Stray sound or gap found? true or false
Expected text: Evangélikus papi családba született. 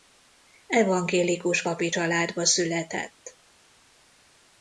false